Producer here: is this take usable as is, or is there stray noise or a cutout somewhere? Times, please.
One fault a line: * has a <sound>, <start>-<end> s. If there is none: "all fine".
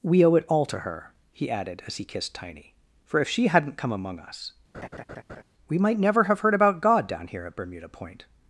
* has a laugh, 4.7-5.4 s